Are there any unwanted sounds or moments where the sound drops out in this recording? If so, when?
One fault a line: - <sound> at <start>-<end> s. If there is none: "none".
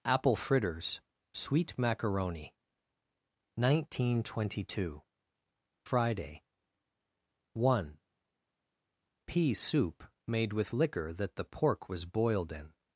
none